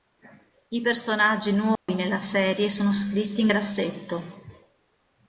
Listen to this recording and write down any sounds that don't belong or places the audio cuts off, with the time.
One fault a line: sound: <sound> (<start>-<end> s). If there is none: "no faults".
sound: dropout (1.8-1.9 s)